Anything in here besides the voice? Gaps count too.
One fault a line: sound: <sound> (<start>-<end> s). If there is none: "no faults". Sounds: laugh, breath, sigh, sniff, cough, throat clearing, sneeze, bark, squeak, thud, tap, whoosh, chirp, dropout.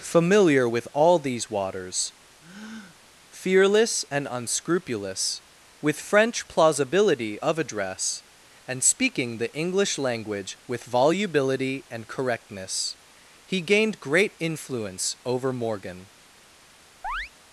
sound: breath (2.4-3.0 s)
sound: chirp (17.0-17.3 s)